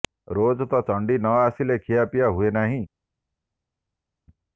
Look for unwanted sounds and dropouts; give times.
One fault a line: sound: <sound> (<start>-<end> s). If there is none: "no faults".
no faults